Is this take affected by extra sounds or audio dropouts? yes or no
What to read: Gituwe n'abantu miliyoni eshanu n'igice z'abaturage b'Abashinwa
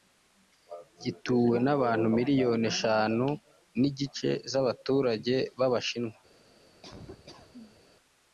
yes